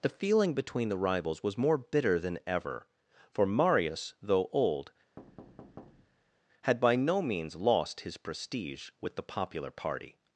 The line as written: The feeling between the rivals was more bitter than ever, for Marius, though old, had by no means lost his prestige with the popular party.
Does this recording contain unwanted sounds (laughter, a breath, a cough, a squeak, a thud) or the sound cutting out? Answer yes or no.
yes